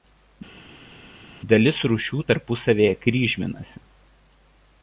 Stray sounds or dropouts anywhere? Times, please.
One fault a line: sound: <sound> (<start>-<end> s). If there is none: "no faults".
no faults